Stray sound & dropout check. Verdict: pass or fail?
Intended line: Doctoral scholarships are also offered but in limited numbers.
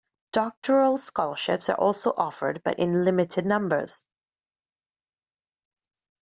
pass